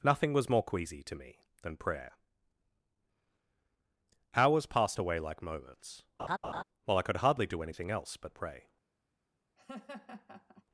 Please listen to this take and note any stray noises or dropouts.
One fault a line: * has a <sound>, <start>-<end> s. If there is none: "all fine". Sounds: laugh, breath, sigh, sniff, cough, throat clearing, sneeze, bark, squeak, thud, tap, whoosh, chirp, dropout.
* has a laugh, 6.2-6.6 s
* has a laugh, 9.6-10.6 s